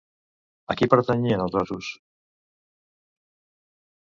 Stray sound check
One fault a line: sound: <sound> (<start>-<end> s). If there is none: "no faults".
no faults